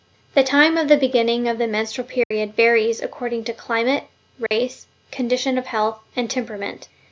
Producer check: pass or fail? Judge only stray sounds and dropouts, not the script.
fail